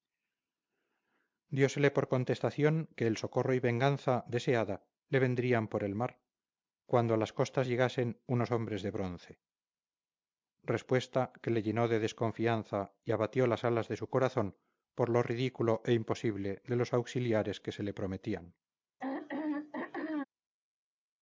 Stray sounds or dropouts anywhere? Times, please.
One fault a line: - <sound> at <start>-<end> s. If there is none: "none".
- throat clearing at 19.0-20.2 s